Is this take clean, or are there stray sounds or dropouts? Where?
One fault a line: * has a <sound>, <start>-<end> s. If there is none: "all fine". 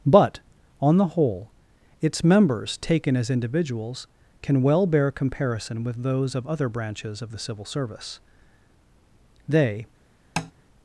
* has a tap, 10.4-10.5 s